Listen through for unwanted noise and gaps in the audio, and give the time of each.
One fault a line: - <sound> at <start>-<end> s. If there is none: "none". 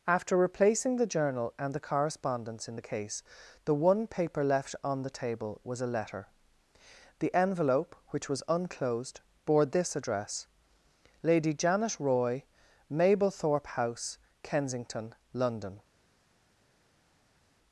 none